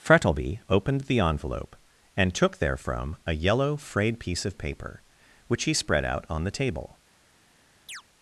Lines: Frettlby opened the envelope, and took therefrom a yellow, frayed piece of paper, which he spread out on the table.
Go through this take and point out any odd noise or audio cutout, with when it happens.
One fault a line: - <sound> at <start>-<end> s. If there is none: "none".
- chirp at 7.9-8.0 s